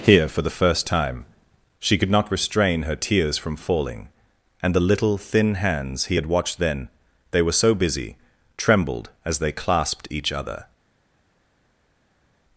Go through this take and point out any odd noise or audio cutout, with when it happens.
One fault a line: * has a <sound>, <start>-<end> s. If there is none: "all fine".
all fine